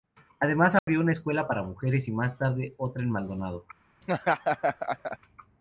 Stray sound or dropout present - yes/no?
yes